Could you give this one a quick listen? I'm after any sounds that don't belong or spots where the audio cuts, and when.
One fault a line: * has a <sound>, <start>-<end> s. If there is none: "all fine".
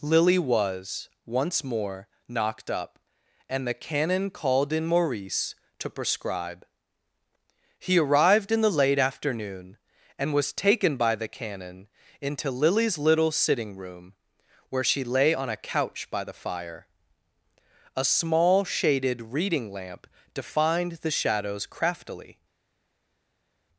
all fine